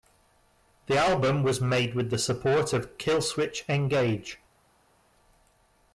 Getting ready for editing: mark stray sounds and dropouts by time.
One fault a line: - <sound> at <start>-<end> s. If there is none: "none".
none